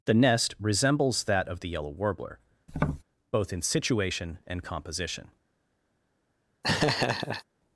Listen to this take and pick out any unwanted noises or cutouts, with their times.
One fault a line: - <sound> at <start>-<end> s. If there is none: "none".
- tap at 2.7-3.0 s
- laugh at 6.6-7.4 s